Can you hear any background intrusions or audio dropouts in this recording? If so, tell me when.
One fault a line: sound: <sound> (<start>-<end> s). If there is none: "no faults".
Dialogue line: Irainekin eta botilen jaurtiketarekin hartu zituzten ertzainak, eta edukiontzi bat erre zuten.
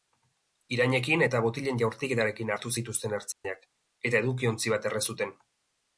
sound: dropout (3.3-3.4 s)